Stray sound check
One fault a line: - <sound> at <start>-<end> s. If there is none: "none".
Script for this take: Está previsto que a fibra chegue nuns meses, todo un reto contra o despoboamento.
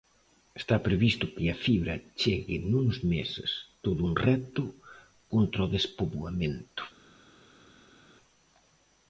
none